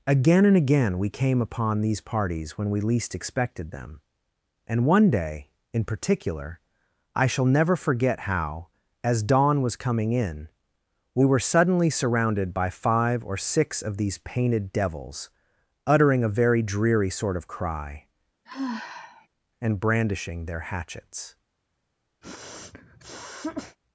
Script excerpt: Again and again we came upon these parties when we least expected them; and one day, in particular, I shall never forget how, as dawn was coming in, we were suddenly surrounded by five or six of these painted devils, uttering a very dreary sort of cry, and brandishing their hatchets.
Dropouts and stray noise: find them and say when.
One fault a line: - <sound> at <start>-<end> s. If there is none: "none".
- sigh at 18.4-19.3 s
- sniff at 22.2-23.8 s